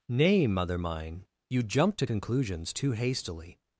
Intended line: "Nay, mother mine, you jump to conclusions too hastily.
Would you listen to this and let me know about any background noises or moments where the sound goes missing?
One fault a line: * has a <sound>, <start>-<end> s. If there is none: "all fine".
all fine